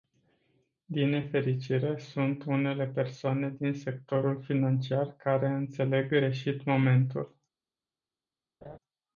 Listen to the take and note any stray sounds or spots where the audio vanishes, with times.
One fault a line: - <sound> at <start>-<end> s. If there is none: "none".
- laugh at 8.6-8.8 s